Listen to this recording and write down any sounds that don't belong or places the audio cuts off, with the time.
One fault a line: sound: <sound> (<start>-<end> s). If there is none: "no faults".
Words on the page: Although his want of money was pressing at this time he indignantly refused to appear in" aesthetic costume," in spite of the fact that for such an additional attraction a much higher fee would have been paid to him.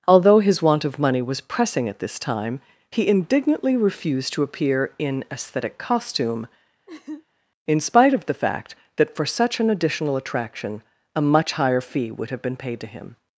sound: laugh (6.9-7.2 s)